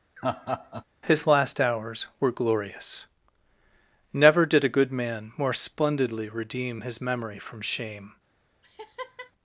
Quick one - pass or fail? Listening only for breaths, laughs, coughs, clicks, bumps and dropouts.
fail